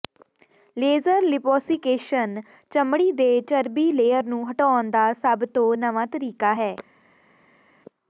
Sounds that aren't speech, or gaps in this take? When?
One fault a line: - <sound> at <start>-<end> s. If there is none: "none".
none